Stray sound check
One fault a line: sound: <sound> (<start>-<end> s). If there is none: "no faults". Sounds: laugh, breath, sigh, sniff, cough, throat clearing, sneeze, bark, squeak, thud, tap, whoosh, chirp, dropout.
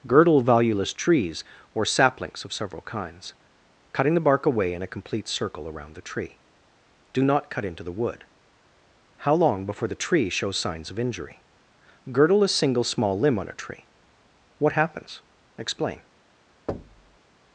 sound: thud (16.7-17.2 s)